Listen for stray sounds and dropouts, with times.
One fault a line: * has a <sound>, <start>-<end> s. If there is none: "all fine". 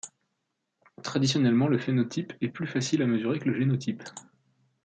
all fine